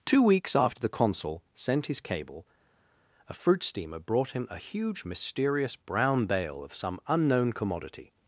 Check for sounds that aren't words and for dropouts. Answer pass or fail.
pass